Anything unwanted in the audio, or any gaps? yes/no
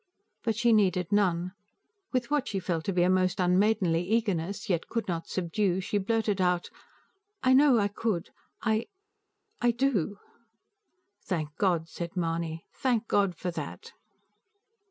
no